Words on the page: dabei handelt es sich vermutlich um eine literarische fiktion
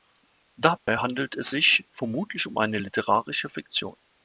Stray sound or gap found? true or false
true